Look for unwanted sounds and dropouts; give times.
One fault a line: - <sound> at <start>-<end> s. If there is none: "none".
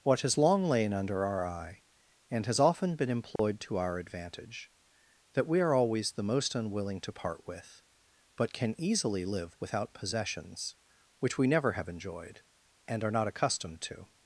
- dropout at 3.4-3.4 s